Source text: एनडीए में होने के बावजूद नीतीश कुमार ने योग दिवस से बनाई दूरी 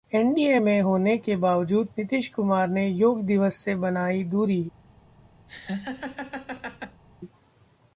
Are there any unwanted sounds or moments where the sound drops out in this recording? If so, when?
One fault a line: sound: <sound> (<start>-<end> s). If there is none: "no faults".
sound: laugh (5.5-7.0 s)